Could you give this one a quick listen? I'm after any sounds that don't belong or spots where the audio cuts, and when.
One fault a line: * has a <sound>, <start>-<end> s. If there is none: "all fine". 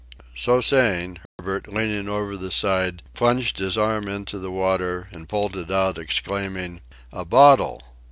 * has a dropout, 1.3-1.4 s